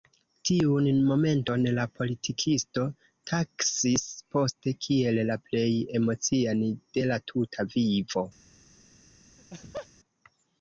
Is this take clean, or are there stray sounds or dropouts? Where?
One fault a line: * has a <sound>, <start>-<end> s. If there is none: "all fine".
* has a laugh, 9.4-9.9 s